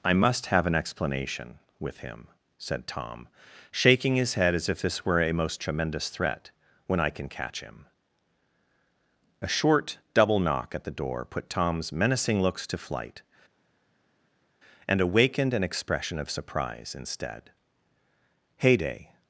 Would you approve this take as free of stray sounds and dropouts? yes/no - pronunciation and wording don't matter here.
yes